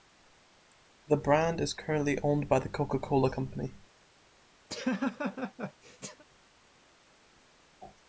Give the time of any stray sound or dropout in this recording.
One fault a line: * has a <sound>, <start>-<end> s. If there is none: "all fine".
* has a laugh, 4.7-6.2 s